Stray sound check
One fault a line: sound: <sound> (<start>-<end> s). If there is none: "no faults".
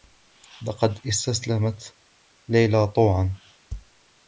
no faults